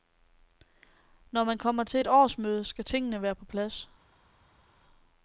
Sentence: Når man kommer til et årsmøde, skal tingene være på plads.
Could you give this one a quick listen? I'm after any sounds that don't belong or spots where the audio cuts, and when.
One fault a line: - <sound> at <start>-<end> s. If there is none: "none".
none